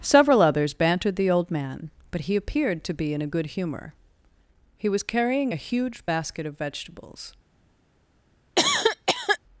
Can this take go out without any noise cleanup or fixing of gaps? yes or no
no